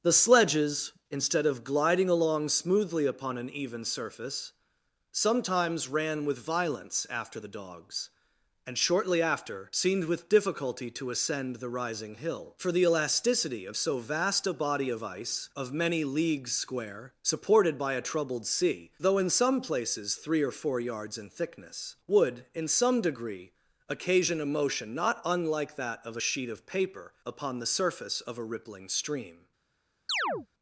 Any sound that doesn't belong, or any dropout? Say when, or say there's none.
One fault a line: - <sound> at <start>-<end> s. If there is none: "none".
- chirp at 30.1-30.5 s